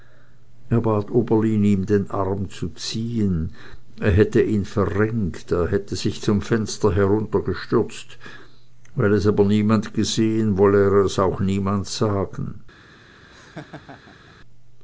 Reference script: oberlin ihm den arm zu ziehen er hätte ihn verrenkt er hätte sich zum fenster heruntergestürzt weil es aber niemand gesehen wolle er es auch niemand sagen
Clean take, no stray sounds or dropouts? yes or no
no